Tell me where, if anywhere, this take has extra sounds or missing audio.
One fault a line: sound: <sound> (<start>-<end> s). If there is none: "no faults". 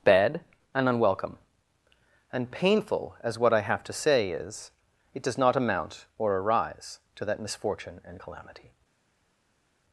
no faults